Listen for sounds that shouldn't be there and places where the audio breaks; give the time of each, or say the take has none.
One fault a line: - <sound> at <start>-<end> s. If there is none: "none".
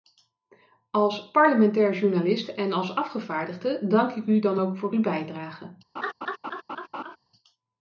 - laugh at 6.0-7.2 s